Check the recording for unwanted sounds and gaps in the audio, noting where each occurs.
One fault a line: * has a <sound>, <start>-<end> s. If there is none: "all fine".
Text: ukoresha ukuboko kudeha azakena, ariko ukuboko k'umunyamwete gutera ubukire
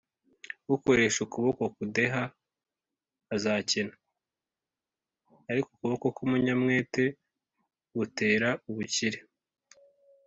all fine